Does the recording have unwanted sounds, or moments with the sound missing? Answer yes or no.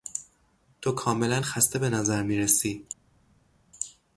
no